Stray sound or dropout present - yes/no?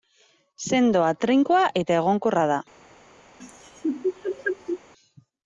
yes